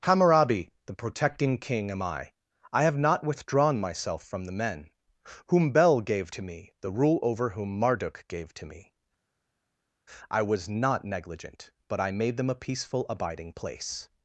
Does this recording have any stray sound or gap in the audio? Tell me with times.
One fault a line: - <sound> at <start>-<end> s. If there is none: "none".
none